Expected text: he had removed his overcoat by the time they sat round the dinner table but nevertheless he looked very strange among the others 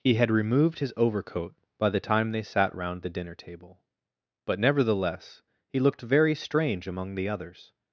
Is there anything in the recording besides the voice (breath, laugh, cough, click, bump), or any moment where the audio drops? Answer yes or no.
no